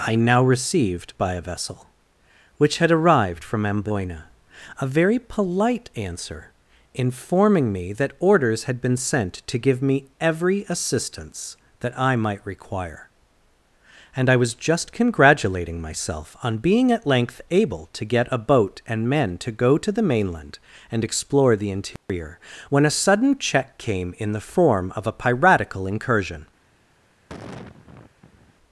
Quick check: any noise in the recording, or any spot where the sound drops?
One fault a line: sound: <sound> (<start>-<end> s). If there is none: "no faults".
sound: dropout (22.0-22.1 s)
sound: sigh (27.3-28.5 s)